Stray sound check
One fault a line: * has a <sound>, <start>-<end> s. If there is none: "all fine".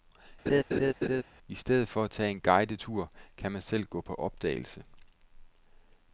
* has a laugh, 0.5-1.2 s